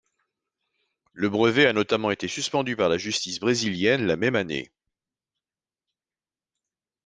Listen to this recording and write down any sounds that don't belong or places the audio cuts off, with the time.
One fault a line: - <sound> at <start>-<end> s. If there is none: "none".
none